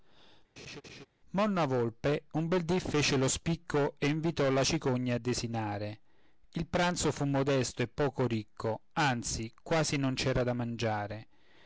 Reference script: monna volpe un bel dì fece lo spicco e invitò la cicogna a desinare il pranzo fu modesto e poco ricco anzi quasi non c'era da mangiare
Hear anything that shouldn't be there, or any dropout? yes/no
yes